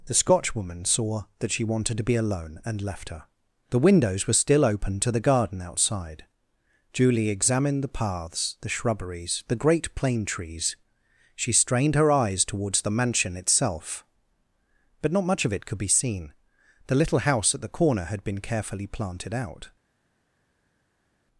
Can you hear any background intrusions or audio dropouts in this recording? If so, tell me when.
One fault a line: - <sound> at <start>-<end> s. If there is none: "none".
none